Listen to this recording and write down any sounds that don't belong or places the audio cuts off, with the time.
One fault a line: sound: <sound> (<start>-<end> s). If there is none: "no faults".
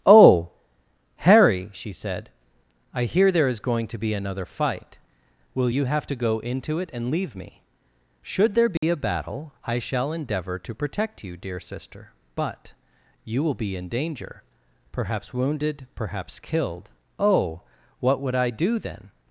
sound: dropout (8.8-8.8 s)